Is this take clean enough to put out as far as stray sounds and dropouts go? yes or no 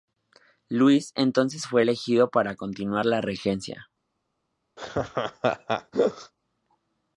no